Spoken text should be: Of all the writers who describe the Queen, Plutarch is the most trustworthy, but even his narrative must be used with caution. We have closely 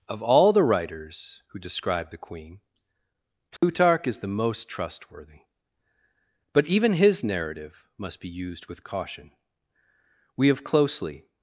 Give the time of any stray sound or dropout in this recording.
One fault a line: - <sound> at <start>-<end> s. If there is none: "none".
- dropout at 3.6-3.6 s